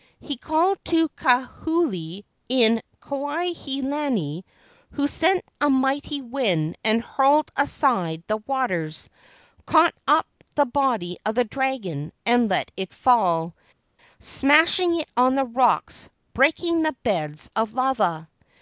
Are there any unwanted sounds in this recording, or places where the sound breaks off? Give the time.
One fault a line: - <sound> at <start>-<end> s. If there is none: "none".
none